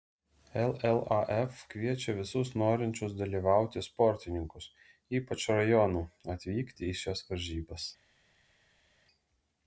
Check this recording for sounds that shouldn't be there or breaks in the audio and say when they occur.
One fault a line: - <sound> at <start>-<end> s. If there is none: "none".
none